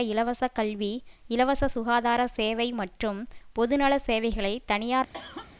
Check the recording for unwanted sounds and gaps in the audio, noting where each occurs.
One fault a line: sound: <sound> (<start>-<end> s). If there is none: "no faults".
sound: cough (5.1-5.5 s)